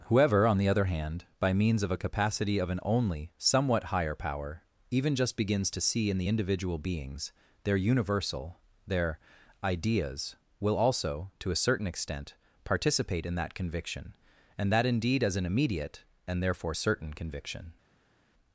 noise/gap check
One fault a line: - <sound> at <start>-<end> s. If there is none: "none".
none